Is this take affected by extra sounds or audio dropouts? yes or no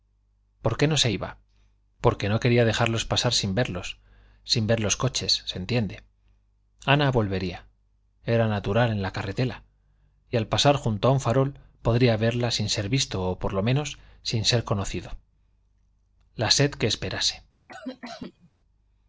yes